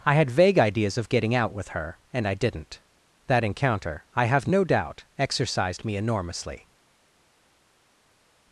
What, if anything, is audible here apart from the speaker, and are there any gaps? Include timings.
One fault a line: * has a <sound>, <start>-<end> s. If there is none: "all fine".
all fine